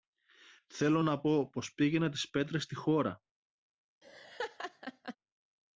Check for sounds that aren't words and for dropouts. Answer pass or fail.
fail